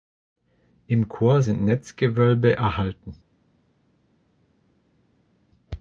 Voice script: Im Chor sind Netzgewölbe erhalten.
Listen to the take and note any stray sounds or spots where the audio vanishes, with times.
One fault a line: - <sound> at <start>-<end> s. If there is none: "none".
none